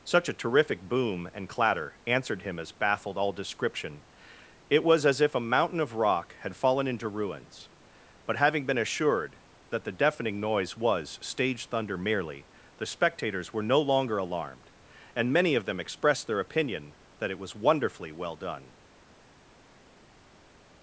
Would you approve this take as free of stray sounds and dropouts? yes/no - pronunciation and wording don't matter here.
yes